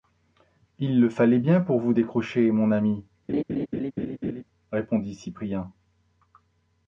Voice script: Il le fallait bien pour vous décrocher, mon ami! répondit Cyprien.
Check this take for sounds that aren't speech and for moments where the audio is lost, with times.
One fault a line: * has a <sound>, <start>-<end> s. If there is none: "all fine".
* has a laugh, 3.3-4.4 s